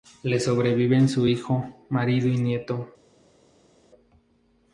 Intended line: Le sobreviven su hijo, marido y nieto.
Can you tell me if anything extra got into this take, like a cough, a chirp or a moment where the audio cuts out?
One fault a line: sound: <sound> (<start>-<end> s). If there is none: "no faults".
no faults